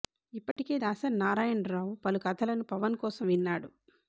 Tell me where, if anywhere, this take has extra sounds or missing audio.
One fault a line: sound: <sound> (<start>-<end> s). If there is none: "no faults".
sound: dropout (0.5-0.6 s)